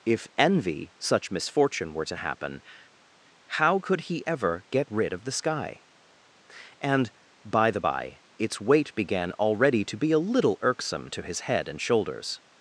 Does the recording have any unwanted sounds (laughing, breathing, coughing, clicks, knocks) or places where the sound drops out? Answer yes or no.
no